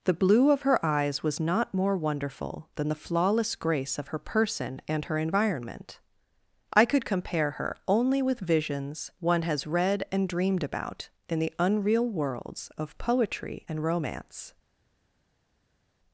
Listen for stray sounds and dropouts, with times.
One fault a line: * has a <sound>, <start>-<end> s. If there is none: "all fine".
all fine